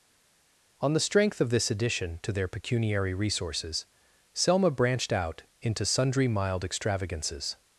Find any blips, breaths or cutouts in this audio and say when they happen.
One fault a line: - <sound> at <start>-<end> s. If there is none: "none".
none